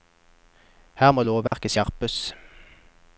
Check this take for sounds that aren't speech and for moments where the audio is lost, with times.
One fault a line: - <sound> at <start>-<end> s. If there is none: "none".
- dropout at 1.5-1.5 s